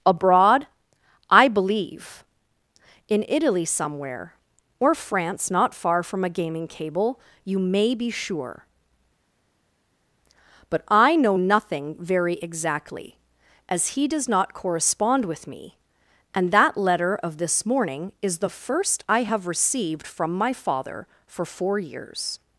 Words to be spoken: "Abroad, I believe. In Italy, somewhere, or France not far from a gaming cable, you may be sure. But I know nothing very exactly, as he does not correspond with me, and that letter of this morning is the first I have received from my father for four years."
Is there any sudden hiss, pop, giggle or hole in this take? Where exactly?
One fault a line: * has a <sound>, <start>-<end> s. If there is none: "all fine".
all fine